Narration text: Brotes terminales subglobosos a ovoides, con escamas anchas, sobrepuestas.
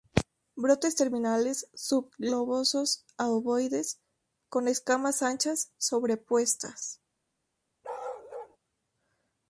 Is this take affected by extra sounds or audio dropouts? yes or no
yes